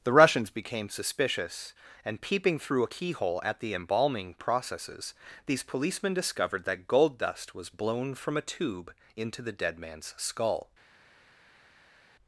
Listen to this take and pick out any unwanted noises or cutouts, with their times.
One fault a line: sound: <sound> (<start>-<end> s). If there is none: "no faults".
no faults